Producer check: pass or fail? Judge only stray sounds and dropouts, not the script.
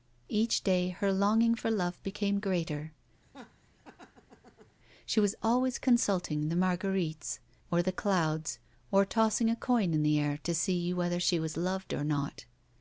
fail